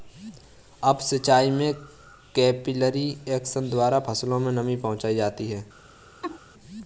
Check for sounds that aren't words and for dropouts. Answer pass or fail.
fail